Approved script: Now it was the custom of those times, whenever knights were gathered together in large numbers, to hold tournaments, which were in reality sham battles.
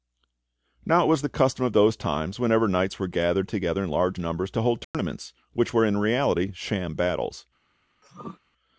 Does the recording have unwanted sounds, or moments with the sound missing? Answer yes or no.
yes